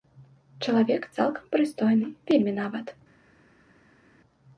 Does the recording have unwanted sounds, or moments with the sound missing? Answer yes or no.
no